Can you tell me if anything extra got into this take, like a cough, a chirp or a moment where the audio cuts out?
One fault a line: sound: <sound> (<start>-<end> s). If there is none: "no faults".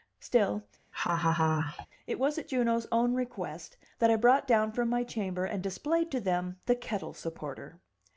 sound: laugh (0.9-1.9 s)